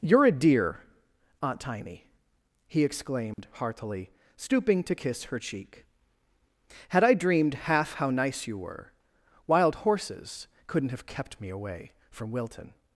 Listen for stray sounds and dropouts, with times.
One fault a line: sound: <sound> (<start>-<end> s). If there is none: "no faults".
sound: dropout (3.3-3.4 s)